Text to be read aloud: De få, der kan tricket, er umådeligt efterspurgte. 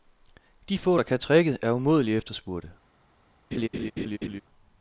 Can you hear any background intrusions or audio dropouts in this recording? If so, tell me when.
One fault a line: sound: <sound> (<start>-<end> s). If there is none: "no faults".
sound: laugh (3.5-4.4 s)